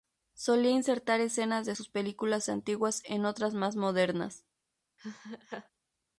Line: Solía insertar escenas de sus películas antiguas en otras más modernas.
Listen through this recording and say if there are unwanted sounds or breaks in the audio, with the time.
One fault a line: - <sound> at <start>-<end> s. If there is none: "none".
- laugh at 5.0-5.7 s